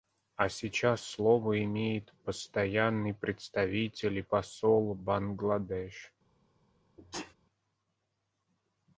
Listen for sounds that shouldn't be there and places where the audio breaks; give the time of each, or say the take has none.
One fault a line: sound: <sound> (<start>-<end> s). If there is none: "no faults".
sound: sneeze (7.0-7.3 s)